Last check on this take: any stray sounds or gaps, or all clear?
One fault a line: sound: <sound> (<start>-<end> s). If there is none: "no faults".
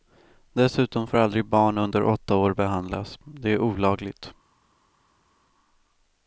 no faults